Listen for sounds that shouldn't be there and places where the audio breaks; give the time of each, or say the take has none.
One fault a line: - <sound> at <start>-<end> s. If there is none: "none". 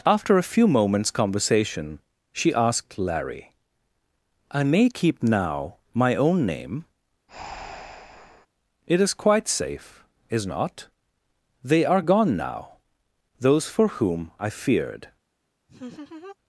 - breath at 7.3-8.5 s
- laugh at 15.7-16.4 s